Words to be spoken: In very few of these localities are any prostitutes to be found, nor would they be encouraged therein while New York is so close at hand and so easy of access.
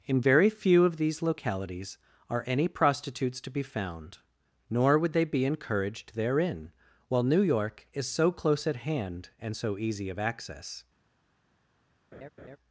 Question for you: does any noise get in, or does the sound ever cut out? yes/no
yes